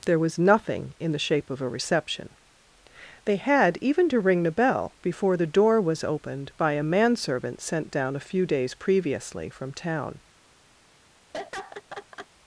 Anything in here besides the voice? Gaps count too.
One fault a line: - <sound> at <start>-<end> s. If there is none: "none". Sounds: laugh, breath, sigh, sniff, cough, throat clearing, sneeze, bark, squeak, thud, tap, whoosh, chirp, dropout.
- laugh at 11.3-12.3 s